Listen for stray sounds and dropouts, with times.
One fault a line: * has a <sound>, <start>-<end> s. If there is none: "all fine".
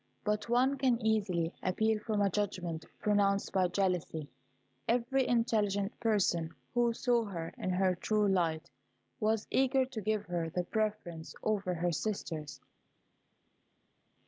all fine